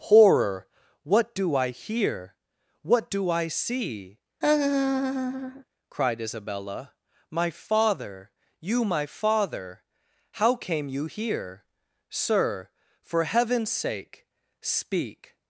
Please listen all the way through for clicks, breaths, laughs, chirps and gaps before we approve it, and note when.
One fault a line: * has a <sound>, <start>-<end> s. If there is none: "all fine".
* has a laugh, 4.4-5.6 s